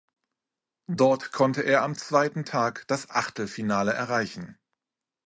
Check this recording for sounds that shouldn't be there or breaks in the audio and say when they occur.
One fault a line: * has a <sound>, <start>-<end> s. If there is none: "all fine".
all fine